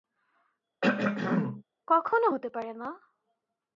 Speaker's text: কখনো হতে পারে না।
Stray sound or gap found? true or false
true